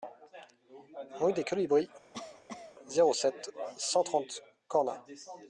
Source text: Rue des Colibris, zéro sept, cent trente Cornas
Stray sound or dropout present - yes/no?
yes